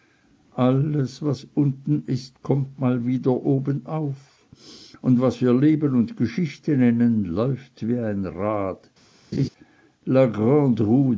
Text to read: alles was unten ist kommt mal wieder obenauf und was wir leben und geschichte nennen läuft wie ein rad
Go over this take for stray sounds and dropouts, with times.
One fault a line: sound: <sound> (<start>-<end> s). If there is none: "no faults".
sound: laugh (9.3-9.5 s)